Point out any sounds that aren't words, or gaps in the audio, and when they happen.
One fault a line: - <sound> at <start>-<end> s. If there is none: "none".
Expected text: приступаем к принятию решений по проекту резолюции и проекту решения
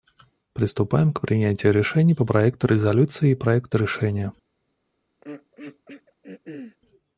- throat clearing at 5.2-6.8 s